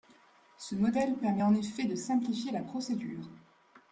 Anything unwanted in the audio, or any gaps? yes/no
no